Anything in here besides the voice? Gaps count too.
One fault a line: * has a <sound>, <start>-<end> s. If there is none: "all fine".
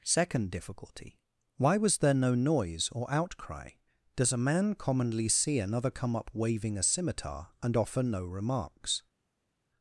all fine